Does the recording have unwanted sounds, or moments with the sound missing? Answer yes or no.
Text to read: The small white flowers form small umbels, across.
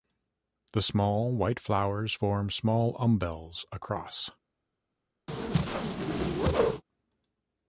yes